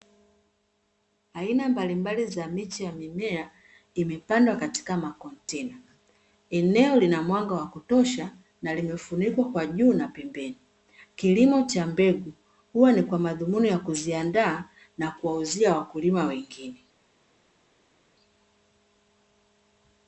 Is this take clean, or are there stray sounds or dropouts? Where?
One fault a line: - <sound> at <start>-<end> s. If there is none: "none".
none